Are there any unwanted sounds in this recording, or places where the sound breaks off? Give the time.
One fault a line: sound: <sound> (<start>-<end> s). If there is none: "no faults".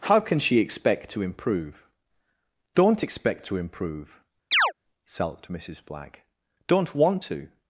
sound: chirp (4.5-4.7 s)